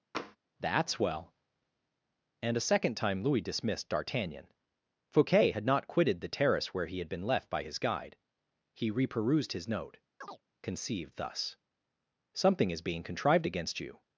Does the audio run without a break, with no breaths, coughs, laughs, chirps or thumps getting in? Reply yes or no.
no